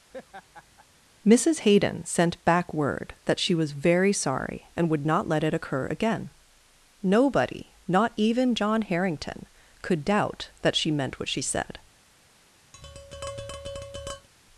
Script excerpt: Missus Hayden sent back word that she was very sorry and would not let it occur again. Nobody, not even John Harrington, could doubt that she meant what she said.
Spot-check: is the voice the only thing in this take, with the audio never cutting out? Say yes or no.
no